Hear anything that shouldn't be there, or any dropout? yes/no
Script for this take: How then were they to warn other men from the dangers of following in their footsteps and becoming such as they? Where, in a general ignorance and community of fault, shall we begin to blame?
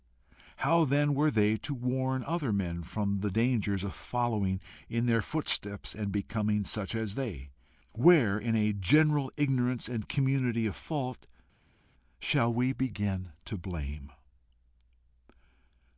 no